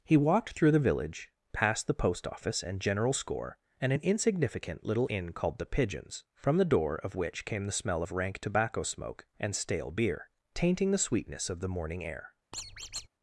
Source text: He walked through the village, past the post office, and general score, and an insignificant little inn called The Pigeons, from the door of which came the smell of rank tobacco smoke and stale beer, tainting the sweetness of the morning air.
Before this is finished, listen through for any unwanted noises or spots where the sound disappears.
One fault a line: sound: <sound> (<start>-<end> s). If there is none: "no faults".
sound: squeak (12.5-13.1 s)